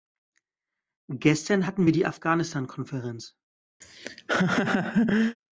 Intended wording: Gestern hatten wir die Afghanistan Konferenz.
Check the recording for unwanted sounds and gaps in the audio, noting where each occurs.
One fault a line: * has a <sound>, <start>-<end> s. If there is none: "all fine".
* has a laugh, 3.8-5.4 s